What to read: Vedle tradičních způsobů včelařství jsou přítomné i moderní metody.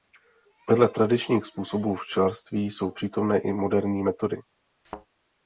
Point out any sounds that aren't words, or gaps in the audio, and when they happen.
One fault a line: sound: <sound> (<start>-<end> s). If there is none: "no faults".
sound: thud (4.8-5.1 s)